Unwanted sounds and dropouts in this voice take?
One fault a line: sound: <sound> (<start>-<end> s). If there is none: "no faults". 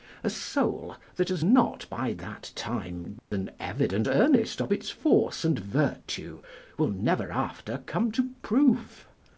sound: dropout (3.2-3.3 s)